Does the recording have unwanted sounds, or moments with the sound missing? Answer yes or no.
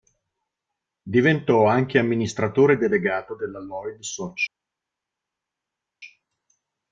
no